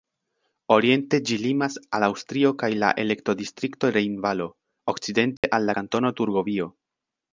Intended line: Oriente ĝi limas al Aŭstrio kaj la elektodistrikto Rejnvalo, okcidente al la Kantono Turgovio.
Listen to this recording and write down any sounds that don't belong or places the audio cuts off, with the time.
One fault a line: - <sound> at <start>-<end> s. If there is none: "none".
- dropout at 5.4-5.4 s